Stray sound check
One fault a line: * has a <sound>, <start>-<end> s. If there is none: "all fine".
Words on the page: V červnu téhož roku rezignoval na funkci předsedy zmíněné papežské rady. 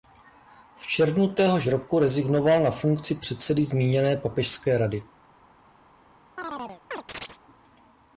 * has a chirp, 6.4-7.4 s